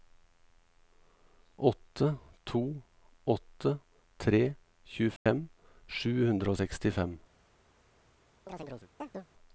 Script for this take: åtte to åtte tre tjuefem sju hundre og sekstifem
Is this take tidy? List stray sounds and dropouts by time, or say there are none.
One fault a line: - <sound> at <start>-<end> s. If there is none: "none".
- dropout at 5.2-5.3 s
- chirp at 8.5-9.3 s